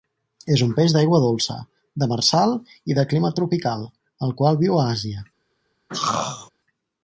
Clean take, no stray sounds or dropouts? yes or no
no